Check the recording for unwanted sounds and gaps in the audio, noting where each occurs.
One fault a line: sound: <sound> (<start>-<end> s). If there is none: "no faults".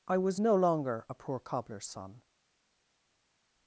no faults